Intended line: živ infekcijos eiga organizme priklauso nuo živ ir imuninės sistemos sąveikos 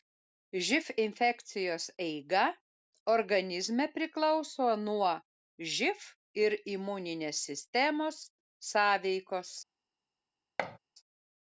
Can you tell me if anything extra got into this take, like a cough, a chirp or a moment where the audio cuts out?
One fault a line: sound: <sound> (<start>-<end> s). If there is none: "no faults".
sound: thud (10.6-10.8 s)